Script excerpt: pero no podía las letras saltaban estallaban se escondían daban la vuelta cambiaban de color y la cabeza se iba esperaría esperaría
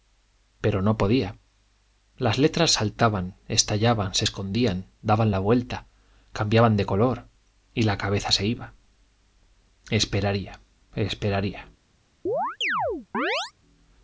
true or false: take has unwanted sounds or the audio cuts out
true